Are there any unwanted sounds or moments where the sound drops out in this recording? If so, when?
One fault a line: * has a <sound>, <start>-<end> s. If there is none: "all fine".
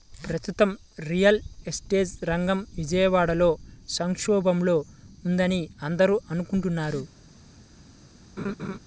* has a laugh, 8.4-8.8 s